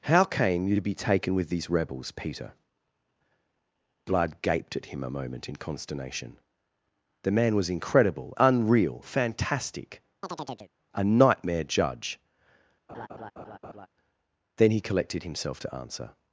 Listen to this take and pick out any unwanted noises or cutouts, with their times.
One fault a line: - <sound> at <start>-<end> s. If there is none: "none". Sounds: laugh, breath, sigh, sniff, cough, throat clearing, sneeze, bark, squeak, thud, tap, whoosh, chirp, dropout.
- chirp at 10.2-10.7 s
- laugh at 12.9-13.9 s